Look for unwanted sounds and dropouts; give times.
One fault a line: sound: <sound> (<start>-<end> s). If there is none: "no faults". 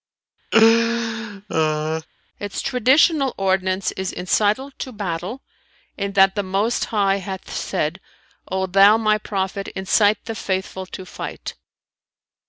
sound: laugh (0.5-2.1 s)